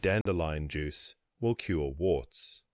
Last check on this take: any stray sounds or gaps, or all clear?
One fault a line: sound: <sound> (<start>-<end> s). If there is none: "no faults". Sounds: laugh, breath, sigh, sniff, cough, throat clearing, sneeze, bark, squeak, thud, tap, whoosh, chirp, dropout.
sound: dropout (0.2-0.3 s)